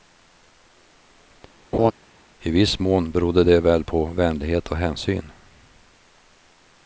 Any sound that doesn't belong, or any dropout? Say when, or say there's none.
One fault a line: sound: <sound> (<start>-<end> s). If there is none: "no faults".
sound: laugh (1.7-1.9 s)